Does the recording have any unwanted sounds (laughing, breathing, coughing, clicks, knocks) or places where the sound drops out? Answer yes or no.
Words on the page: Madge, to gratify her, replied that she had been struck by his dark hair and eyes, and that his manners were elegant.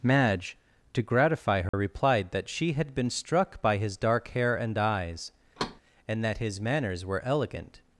yes